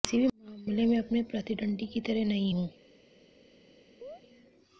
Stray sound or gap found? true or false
true